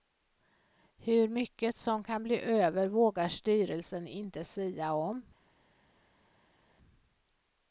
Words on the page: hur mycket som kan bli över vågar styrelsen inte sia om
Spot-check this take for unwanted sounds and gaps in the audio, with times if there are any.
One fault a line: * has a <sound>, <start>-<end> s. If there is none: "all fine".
all fine